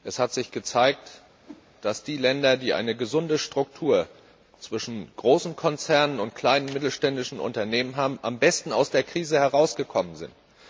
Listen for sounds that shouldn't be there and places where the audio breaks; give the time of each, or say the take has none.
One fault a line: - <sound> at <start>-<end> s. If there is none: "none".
- whoosh at 1.4-1.7 s